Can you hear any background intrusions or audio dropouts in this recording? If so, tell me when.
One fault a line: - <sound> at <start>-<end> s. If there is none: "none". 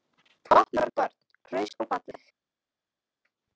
none